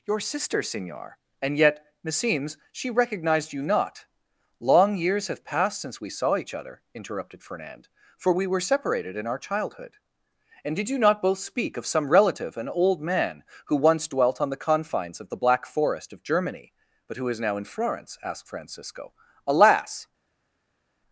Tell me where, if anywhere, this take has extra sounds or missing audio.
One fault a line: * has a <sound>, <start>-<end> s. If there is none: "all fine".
all fine